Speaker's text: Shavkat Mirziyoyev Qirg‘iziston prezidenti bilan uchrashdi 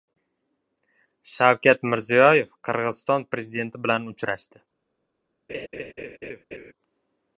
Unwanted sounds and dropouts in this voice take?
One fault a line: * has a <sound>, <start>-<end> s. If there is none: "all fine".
* has a laugh, 5.5-6.7 s